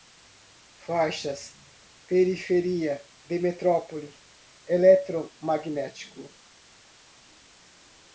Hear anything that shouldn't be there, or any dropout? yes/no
no